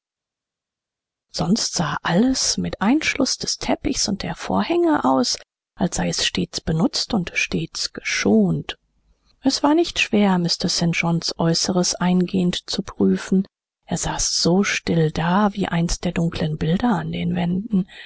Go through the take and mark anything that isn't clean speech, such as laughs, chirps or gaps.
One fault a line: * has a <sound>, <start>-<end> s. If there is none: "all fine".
all fine